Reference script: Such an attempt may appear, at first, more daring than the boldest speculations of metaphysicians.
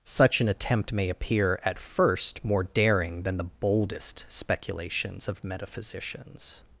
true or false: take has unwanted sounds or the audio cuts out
false